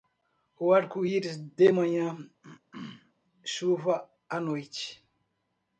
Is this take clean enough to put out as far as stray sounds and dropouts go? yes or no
no